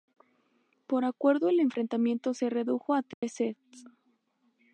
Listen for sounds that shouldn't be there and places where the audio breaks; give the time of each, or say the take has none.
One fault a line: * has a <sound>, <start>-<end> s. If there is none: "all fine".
* has a dropout, 3.1-3.2 s